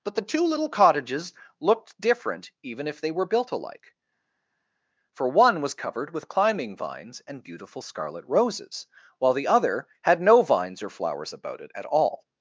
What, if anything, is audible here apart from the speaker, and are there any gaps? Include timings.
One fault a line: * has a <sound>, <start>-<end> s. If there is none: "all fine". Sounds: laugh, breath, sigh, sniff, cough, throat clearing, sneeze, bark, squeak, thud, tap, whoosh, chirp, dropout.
all fine